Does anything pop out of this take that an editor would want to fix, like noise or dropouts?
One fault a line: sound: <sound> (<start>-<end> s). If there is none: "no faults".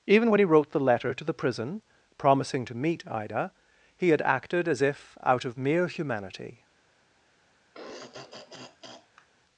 sound: throat clearing (7.7-9.3 s)